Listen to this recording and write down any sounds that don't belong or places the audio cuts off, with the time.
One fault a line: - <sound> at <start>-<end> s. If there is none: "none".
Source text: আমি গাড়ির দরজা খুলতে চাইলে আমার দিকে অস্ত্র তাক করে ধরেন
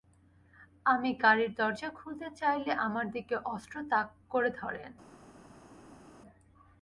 none